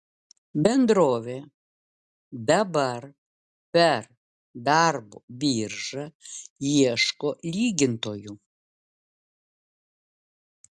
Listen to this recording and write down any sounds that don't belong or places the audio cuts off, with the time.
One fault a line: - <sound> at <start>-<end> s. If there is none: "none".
none